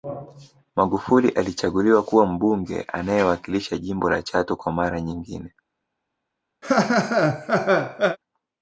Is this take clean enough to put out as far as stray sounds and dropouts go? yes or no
no